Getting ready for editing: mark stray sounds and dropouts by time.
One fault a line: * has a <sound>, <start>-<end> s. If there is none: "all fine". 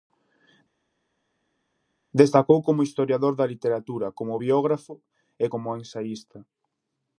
all fine